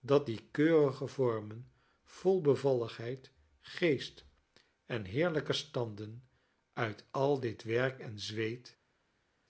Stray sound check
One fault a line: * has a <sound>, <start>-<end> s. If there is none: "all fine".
all fine